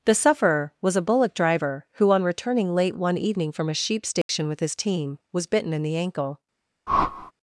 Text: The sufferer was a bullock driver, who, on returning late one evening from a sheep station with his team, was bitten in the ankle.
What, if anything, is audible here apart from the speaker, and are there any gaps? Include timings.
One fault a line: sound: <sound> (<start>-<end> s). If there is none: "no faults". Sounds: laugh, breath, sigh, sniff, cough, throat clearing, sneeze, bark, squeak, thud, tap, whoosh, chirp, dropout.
sound: dropout (4.2-4.3 s)
sound: whoosh (6.9-7.3 s)